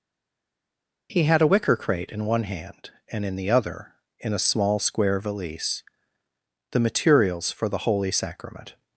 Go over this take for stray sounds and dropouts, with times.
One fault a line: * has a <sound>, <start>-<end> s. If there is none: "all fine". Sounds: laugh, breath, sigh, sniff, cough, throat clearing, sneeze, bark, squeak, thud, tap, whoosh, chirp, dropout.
all fine